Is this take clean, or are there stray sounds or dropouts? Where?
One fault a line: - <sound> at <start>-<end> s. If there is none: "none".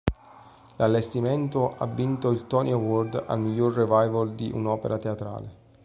none